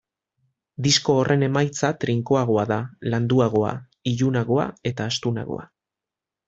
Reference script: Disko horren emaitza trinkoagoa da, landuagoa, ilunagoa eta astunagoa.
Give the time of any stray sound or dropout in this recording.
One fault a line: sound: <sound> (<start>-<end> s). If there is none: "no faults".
no faults